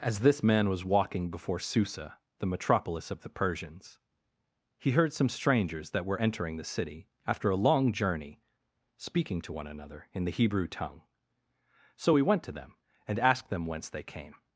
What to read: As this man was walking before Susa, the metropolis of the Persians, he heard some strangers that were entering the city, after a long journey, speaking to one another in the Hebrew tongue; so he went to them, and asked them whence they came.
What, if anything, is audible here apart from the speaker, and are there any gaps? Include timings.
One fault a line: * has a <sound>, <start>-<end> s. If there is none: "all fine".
all fine